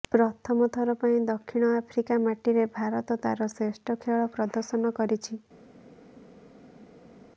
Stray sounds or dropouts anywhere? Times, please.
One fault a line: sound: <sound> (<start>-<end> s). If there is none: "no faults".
no faults